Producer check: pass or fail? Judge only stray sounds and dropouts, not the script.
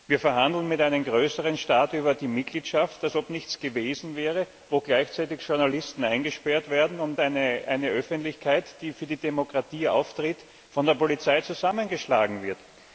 pass